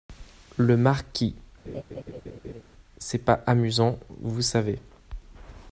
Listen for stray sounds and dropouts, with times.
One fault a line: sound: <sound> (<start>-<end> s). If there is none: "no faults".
sound: laugh (1.7-2.6 s)